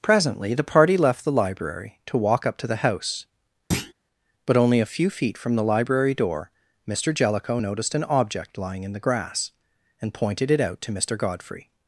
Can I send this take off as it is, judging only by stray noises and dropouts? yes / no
no